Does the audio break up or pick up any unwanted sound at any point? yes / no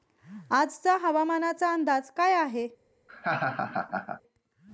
yes